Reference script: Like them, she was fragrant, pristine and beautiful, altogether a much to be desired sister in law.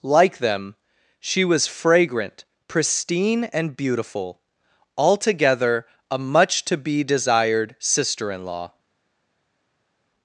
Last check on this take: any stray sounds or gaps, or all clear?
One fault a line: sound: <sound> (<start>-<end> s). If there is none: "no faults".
no faults